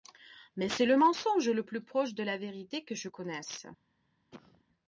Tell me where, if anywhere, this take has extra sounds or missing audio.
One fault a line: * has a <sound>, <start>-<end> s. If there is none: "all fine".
* has a cough, 4.3-4.6 s